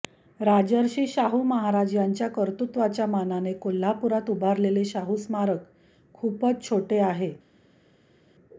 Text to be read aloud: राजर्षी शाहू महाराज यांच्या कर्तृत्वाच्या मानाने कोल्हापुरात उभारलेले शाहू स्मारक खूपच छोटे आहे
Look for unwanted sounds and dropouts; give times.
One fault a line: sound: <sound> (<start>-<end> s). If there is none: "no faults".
no faults